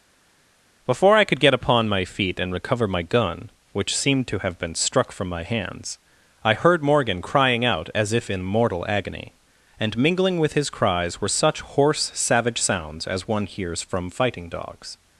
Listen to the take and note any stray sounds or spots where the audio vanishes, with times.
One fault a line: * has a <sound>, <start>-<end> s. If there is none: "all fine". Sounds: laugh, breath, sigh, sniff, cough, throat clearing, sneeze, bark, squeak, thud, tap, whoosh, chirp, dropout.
all fine